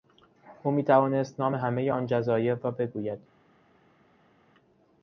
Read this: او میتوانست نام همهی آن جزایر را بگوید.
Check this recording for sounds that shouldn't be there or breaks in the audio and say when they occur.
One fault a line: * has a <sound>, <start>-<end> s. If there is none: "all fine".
all fine